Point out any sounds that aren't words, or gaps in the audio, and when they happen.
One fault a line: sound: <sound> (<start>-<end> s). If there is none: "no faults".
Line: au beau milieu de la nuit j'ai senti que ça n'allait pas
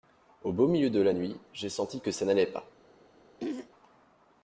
sound: throat clearing (3.4-3.7 s)